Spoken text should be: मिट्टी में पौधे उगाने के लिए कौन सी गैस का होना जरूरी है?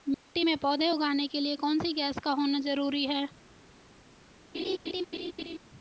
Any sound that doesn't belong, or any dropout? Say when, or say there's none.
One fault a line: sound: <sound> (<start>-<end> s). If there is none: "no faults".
sound: dropout (0.1-0.3 s)
sound: laugh (4.5-5.6 s)